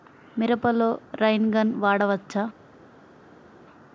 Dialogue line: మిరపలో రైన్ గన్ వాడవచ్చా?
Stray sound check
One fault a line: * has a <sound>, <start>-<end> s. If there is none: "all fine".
all fine